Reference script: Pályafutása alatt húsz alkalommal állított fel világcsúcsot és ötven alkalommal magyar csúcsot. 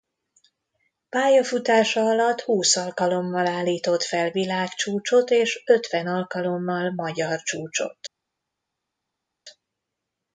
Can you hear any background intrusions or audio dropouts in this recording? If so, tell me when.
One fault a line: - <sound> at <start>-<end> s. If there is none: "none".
none